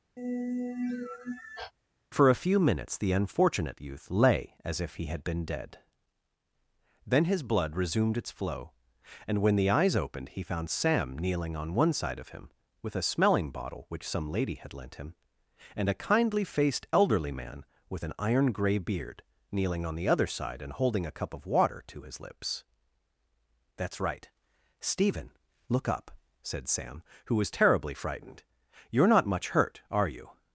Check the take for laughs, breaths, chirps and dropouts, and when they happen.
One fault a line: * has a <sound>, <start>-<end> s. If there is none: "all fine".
* has a sigh, 0.2-1.7 s